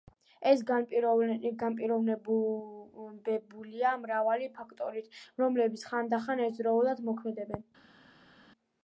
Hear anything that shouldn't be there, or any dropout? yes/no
no